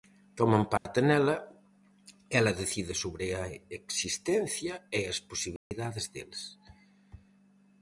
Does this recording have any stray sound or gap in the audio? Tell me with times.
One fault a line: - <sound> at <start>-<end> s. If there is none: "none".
- dropout at 0.8-0.9 s
- dropout at 5.6-5.7 s